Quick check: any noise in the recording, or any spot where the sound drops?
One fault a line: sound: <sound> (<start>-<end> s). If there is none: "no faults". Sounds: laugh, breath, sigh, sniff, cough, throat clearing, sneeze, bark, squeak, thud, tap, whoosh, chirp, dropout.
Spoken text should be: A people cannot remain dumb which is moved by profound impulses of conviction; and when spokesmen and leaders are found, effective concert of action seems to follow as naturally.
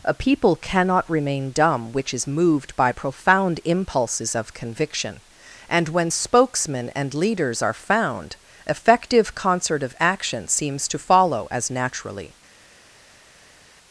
no faults